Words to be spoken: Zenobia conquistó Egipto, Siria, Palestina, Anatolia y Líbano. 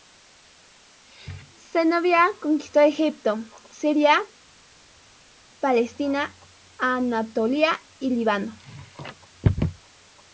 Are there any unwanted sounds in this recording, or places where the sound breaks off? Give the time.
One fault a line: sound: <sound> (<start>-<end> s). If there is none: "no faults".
no faults